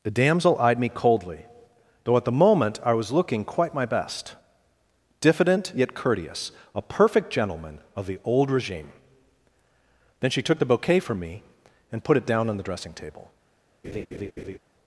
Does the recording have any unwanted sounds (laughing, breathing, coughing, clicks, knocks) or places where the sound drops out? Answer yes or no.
yes